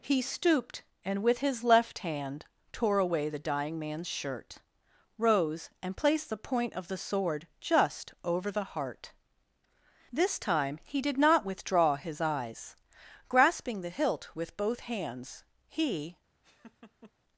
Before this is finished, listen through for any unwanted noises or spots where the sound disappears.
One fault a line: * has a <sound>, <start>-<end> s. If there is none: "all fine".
* has a laugh, 16.4-17.1 s